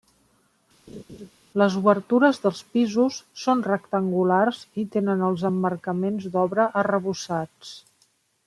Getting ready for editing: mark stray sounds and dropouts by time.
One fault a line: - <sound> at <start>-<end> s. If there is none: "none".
- laugh at 0.9-1.3 s